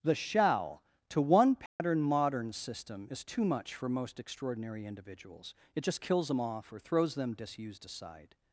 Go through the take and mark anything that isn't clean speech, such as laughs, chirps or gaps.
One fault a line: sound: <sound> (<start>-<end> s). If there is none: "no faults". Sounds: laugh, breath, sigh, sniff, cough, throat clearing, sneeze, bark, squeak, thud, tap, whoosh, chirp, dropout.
sound: dropout (1.7-1.8 s)